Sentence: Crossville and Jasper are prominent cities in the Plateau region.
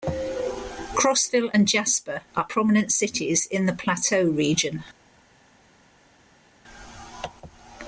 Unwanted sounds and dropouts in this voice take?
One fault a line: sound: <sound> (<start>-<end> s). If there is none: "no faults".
no faults